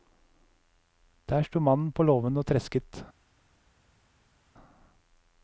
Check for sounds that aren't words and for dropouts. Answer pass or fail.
pass